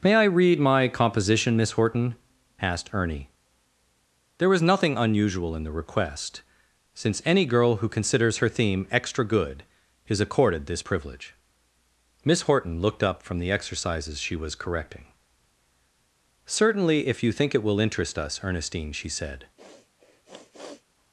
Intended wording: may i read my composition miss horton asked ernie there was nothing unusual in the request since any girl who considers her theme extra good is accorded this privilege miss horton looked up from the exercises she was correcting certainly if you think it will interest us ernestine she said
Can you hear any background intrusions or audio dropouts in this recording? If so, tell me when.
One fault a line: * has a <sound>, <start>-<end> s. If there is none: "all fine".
* has a sniff, 19.6-20.8 s